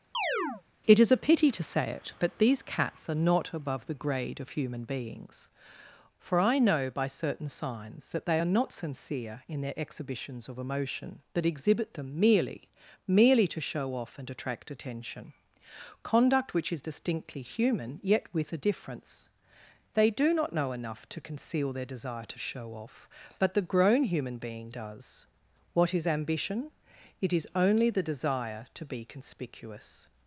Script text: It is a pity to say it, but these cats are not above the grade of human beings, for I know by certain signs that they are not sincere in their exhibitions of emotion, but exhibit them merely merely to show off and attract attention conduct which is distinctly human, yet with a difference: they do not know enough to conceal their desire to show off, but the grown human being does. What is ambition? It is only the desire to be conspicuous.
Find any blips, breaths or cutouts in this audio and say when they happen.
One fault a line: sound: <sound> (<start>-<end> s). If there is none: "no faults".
sound: chirp (0.1-0.6 s)